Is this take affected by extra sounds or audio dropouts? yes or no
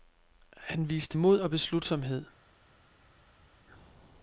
no